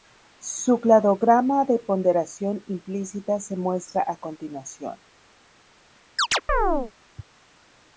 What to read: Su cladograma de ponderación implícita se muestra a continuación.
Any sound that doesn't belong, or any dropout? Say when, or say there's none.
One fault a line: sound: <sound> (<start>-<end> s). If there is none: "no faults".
sound: chirp (6.2-6.9 s)